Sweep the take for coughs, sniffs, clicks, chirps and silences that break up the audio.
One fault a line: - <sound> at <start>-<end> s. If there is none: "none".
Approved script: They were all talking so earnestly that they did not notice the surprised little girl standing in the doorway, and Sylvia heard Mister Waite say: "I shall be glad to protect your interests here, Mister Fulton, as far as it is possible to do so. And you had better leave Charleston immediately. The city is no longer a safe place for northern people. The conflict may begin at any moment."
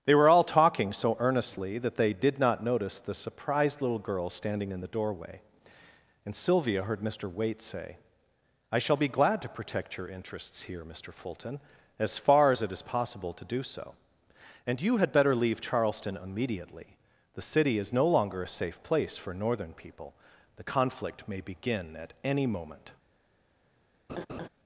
- laugh at 24.1-24.5 s